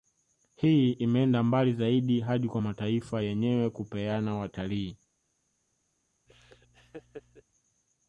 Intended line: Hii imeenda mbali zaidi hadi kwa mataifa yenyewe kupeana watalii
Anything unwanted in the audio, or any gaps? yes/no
yes